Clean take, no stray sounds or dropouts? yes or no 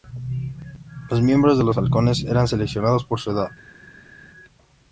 yes